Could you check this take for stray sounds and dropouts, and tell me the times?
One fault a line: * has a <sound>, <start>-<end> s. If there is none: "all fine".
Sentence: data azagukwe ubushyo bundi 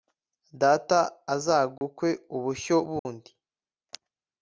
* has a dropout, 1.8-1.8 s
* has a dropout, 3.0-3.1 s